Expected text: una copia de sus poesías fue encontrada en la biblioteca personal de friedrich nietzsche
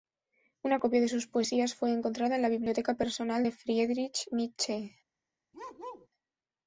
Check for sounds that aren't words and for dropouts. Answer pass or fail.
fail